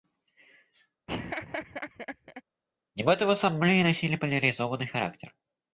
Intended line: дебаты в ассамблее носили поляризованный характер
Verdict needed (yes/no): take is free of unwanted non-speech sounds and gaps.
no